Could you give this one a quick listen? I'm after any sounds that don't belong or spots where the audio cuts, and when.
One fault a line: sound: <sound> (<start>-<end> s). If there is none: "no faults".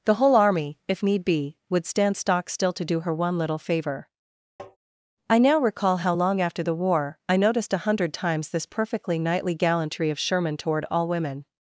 sound: tap (4.6-4.8 s)